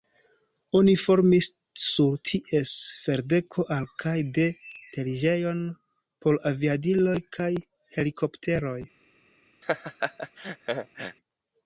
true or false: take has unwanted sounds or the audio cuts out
true